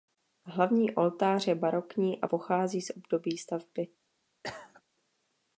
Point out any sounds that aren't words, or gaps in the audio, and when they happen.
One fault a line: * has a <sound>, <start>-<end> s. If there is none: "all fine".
* has a cough, 4.4-4.8 s